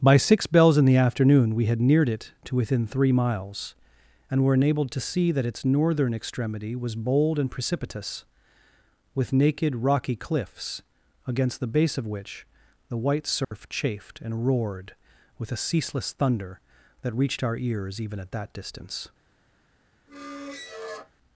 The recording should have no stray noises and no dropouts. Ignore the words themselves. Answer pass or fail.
fail